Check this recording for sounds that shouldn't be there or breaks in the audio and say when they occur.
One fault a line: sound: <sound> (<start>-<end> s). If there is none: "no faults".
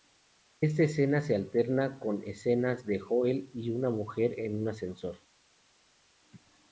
no faults